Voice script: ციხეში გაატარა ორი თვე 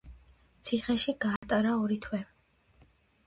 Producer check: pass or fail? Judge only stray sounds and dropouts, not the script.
fail